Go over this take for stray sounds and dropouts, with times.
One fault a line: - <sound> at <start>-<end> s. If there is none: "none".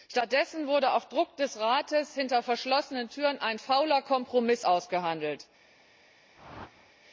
- whoosh at 6.3-6.9 s